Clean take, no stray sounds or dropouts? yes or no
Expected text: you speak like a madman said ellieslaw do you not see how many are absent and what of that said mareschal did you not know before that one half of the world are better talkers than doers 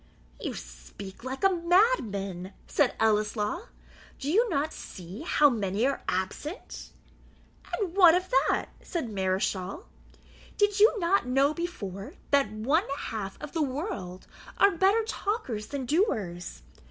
yes